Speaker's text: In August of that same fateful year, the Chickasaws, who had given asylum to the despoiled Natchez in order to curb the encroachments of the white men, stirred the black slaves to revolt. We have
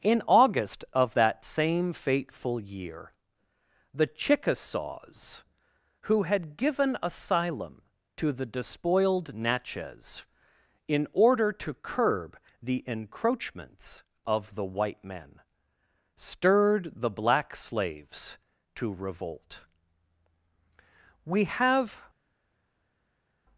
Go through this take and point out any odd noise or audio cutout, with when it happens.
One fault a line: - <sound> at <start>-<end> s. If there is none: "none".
none